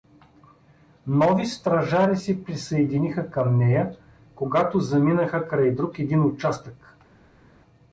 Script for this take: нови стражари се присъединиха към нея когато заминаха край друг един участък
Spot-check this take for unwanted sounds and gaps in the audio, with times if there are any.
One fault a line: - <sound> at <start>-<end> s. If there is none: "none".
none